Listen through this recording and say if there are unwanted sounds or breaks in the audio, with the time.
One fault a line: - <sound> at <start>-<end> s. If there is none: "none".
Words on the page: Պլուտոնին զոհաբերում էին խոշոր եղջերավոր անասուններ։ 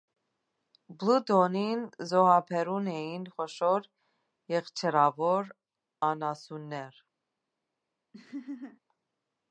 - laugh at 8.1-8.8 s